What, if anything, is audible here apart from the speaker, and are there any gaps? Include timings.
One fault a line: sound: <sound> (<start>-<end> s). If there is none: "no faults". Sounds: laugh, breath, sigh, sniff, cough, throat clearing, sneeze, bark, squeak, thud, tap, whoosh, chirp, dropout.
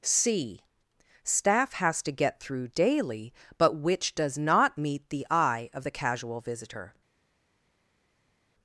no faults